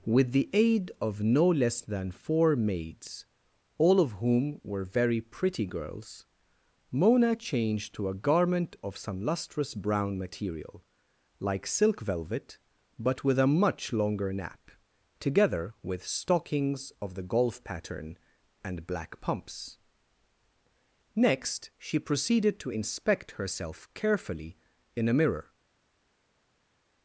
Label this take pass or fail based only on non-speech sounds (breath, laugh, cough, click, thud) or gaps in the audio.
pass